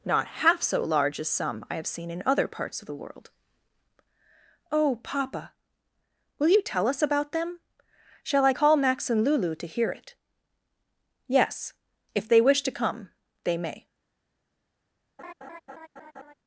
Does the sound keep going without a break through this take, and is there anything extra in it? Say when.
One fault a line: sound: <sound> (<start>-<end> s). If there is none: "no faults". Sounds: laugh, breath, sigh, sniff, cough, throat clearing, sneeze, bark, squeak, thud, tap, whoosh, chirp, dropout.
sound: laugh (15.2-16.3 s)